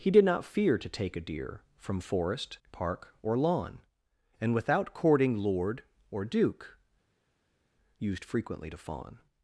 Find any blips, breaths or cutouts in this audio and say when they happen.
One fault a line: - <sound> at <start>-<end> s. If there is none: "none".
none